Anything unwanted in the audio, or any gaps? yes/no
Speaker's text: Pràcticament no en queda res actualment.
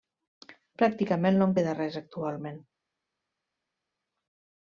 no